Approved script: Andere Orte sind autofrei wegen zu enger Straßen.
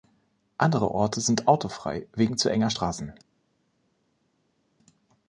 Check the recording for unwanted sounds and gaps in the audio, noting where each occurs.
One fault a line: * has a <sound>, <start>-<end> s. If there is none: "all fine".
all fine